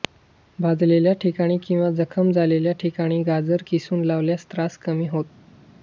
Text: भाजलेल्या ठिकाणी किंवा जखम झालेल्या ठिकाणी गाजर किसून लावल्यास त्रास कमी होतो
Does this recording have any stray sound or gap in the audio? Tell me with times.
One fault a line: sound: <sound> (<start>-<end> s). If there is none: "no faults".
no faults